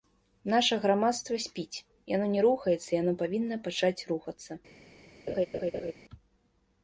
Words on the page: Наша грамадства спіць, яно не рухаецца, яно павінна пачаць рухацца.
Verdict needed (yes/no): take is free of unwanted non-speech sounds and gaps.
no